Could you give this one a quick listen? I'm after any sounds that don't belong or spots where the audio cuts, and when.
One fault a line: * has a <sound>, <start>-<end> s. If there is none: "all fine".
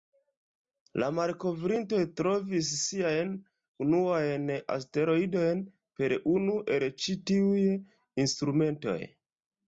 all fine